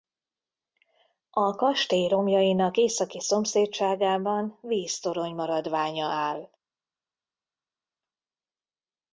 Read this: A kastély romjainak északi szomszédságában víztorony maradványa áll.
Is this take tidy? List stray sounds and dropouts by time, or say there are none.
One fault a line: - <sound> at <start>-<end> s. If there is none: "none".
none